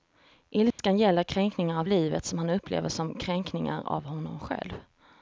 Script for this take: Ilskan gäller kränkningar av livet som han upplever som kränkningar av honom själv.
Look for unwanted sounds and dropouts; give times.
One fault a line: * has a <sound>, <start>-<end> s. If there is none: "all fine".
* has a dropout, 0.7-0.8 s